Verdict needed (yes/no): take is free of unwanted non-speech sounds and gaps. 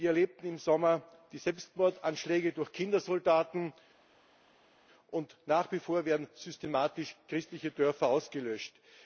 yes